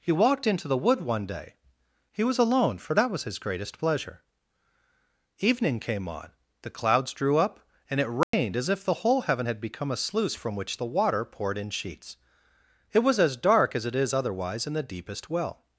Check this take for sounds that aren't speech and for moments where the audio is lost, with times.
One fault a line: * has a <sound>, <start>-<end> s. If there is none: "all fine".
* has a dropout, 8.2-8.3 s